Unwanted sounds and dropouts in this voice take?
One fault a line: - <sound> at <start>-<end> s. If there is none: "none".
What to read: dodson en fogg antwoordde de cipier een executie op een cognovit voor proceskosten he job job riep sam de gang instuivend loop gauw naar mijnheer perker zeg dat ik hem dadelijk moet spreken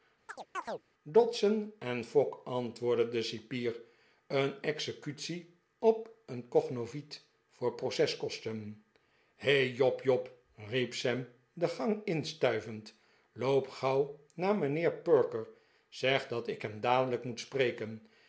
- chirp at 0.3-0.8 s